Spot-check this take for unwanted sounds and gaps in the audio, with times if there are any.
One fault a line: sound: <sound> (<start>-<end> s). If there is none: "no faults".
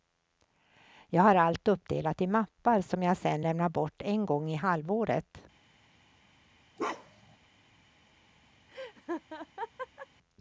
sound: bark (6.8-7.4 s)
sound: laugh (8.7-10.1 s)